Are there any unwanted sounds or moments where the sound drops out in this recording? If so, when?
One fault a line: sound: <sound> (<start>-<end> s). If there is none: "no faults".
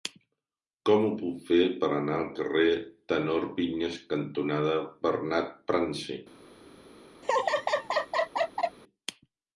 sound: laugh (7.2-8.8 s)